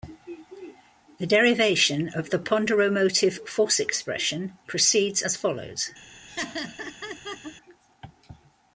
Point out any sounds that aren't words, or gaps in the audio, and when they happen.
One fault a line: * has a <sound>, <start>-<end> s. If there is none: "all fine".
* has a laugh, 6.3-7.6 s